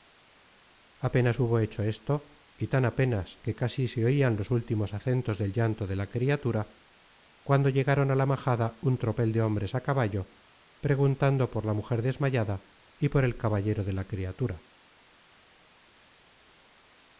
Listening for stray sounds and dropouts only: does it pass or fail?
pass